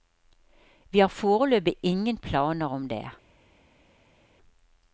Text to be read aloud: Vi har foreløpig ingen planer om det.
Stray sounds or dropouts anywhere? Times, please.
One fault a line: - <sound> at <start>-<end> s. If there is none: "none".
none